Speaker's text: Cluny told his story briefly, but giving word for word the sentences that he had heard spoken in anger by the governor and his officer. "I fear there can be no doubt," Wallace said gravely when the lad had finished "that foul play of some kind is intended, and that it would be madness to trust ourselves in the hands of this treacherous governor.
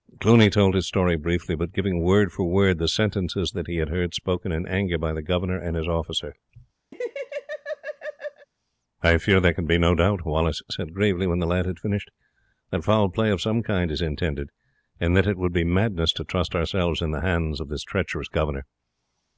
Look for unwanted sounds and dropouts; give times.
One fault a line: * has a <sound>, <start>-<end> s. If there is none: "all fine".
* has a laugh, 6.9-8.5 s